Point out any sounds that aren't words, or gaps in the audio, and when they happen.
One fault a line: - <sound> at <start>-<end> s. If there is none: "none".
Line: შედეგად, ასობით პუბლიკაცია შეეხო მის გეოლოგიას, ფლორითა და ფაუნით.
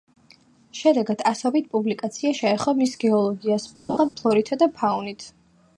- laugh at 3.9-4.1 s